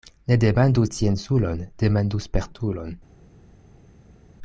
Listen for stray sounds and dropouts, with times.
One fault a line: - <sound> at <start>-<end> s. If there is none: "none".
none